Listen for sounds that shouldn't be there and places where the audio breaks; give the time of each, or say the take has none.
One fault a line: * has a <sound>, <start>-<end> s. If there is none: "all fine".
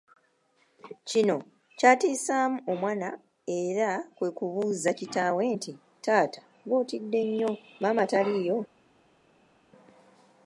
all fine